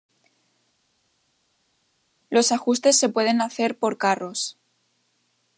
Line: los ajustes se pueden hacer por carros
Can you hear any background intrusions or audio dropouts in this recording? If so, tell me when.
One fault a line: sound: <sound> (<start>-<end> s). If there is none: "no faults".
no faults